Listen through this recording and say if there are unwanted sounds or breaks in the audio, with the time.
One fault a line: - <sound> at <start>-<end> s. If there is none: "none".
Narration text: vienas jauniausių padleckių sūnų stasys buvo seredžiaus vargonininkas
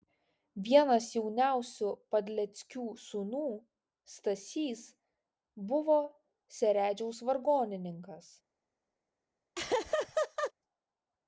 - laugh at 9.5-10.5 s